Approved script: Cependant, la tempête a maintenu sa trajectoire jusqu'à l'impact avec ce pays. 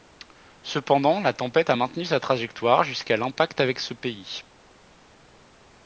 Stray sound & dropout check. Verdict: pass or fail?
pass